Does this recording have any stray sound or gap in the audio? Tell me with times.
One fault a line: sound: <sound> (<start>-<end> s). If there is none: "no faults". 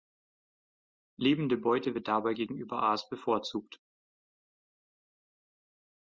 no faults